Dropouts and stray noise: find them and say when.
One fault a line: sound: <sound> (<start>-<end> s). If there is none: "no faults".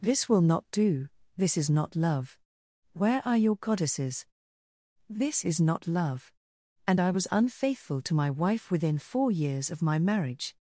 no faults